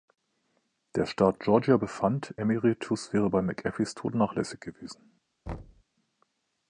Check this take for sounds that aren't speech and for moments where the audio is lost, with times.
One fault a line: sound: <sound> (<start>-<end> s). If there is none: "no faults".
sound: thud (5.5-5.8 s)